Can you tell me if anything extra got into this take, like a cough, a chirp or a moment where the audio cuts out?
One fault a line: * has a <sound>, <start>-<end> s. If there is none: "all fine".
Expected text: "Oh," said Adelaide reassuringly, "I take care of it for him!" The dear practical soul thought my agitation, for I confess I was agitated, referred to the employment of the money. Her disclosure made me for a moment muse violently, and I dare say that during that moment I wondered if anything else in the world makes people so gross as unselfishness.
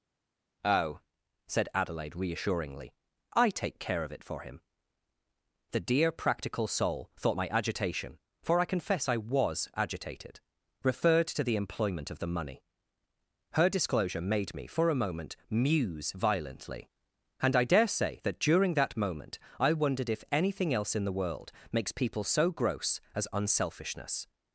all fine